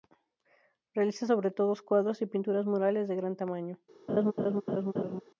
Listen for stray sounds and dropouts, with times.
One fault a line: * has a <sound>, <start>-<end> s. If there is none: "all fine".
* has a laugh, 4.1-5.2 s